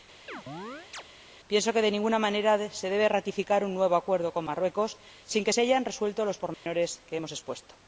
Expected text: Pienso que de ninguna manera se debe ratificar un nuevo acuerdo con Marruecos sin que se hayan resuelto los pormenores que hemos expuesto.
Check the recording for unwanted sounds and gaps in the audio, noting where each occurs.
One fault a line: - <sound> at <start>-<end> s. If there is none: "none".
- chirp at 0.3-1.0 s
- dropout at 6.5-6.7 s